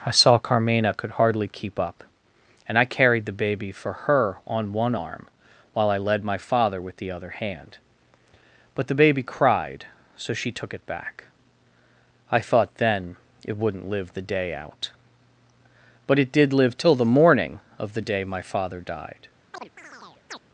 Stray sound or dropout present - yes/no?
yes